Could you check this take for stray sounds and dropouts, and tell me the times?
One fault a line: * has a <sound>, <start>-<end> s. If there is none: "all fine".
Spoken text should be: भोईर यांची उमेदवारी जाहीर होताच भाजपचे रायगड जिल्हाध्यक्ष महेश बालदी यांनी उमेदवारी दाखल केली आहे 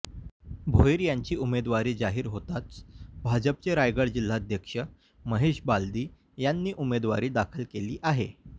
all fine